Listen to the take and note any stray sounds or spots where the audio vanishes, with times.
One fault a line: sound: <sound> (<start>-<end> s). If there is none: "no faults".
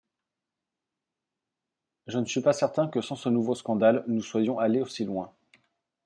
no faults